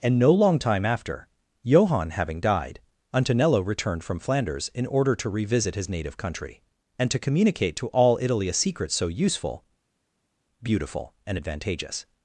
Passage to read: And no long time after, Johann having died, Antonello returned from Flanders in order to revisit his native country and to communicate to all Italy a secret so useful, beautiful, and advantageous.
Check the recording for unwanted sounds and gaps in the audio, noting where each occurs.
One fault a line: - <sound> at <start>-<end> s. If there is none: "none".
none